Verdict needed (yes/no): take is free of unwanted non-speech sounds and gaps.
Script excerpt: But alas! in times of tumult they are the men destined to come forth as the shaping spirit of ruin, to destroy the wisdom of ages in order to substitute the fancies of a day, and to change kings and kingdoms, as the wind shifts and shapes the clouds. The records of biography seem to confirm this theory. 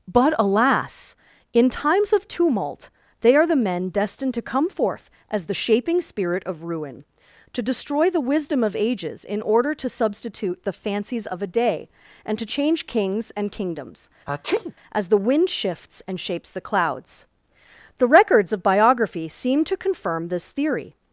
no